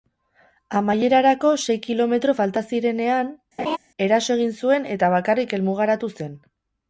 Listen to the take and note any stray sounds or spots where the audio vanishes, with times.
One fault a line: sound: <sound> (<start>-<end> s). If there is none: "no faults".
sound: laugh (3.6-3.8 s)